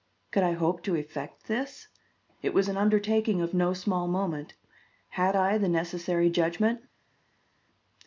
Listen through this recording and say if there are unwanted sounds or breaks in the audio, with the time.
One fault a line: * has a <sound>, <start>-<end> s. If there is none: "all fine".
all fine